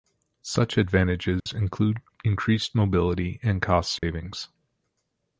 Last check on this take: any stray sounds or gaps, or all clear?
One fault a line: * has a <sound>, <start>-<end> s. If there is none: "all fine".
* has a dropout, 1.4-1.5 s
* has a dropout, 4.0-4.0 s